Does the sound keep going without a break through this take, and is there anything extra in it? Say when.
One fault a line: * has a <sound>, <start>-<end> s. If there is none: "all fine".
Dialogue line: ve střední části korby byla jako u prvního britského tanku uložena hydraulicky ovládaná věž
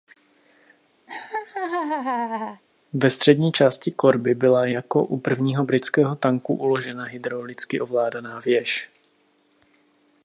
* has a laugh, 1.1-2.6 s